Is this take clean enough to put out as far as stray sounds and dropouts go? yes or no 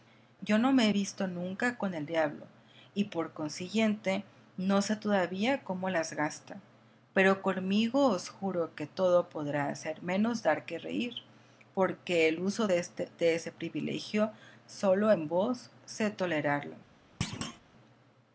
no